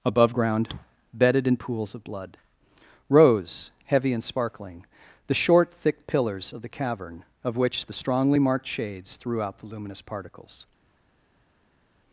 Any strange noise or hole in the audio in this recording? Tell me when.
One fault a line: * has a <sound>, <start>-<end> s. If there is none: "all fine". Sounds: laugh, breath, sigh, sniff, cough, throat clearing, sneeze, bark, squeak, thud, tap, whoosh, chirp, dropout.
all fine